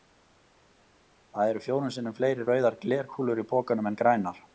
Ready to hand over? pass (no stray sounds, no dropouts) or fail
pass